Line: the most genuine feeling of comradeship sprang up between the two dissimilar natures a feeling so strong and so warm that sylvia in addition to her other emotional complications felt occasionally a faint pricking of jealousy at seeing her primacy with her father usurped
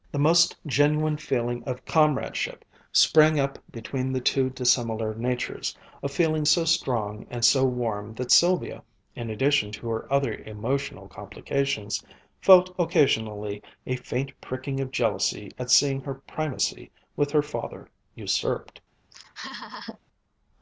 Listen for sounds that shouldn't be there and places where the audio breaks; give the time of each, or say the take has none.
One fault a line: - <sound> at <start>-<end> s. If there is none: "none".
- laugh at 19.1-20.0 s